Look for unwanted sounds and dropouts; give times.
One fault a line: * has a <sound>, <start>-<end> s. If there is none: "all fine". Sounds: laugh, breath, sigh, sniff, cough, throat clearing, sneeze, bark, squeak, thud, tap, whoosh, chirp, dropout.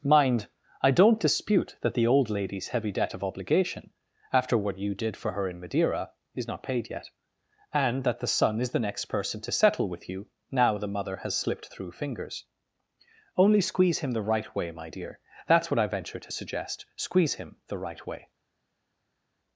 all fine